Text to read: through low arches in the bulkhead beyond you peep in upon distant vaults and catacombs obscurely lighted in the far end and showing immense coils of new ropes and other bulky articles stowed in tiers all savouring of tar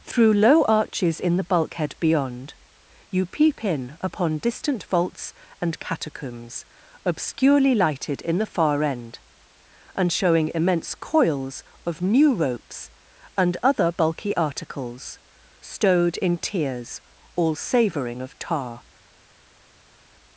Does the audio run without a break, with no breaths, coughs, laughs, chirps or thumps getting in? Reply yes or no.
yes